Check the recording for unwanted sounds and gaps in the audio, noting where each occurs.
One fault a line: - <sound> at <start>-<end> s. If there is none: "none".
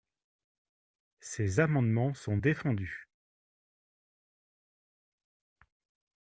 none